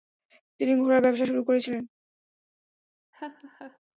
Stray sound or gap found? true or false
true